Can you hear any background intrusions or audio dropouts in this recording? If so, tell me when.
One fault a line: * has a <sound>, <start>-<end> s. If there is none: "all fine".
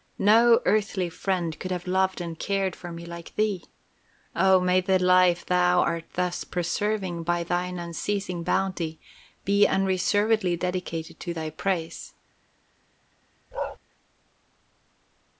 * has a bark, 13.5-13.8 s